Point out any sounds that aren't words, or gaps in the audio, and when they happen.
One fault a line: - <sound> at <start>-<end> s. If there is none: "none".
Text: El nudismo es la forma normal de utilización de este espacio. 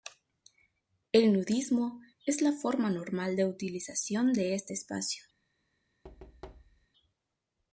- thud at 6.0-6.9 s